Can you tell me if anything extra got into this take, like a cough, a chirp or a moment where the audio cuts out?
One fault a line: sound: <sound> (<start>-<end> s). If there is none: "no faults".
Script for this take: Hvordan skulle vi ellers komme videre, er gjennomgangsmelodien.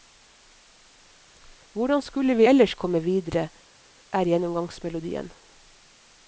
no faults